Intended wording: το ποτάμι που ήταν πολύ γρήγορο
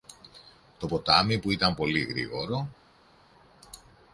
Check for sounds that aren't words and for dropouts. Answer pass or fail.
pass